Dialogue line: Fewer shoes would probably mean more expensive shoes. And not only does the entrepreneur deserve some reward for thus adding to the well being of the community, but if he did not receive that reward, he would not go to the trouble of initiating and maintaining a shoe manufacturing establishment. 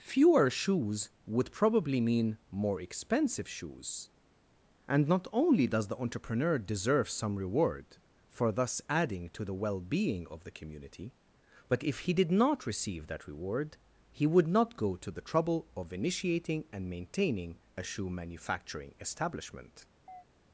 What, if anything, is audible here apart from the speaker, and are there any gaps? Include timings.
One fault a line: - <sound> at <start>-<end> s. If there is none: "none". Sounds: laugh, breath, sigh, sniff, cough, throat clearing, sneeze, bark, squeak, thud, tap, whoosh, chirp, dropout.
- chirp at 20.1-20.2 s